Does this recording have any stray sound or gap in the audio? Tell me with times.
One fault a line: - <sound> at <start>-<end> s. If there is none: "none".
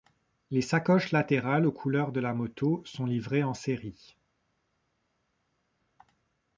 none